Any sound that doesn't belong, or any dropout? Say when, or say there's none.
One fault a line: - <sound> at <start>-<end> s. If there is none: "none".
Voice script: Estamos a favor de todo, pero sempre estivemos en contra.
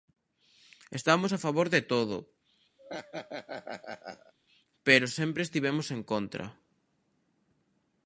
- laugh at 2.8-4.3 s